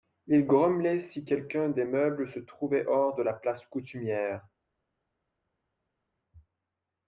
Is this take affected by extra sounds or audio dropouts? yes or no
no